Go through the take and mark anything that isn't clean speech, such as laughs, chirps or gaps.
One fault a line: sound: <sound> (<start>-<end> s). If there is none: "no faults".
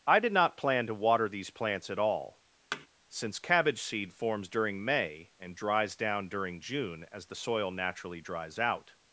sound: thud (2.7-2.9 s)